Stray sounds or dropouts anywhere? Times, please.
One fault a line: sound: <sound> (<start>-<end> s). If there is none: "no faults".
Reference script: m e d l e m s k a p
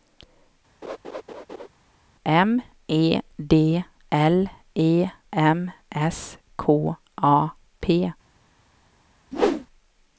sound: laugh (0.8-1.7 s)
sound: whoosh (9.3-9.7 s)